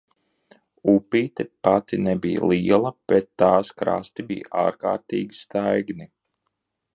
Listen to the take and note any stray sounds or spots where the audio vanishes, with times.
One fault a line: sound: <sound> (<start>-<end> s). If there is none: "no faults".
no faults